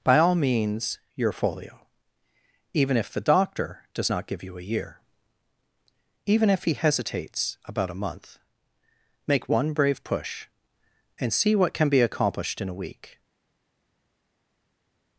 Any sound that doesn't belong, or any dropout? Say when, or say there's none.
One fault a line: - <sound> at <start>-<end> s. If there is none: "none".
none